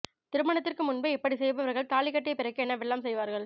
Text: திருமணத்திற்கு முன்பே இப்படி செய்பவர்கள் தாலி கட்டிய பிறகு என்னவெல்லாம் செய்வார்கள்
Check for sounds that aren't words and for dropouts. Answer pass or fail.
pass